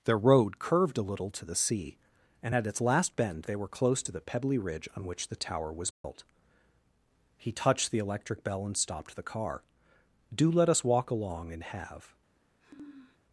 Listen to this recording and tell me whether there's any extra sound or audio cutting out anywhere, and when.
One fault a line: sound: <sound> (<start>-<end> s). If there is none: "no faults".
sound: dropout (5.9-6.0 s)
sound: sniff (12.6-13.2 s)